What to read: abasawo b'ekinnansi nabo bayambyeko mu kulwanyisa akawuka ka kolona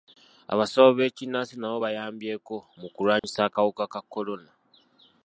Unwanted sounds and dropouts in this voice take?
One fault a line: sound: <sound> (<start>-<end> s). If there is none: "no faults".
sound: dropout (3.2-3.2 s)